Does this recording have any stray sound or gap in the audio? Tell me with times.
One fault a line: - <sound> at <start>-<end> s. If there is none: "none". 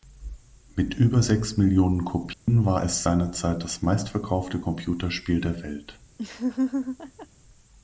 - dropout at 2.3-2.5 s
- laugh at 6.2-7.3 s